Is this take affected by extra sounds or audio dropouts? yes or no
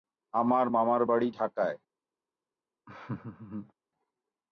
yes